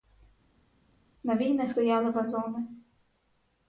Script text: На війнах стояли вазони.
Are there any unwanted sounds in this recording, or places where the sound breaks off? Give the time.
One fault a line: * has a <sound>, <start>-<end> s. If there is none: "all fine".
all fine